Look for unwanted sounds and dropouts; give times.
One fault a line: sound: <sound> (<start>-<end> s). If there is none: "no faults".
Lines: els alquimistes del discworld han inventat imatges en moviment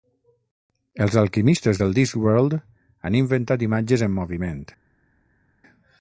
no faults